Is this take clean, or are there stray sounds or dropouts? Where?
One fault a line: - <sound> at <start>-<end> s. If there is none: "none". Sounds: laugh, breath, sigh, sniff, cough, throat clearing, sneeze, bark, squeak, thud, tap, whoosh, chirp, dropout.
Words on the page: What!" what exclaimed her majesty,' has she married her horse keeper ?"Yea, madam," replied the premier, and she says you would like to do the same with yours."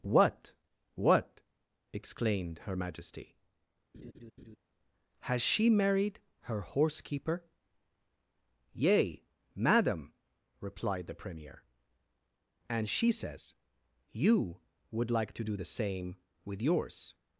- laugh at 3.9-4.6 s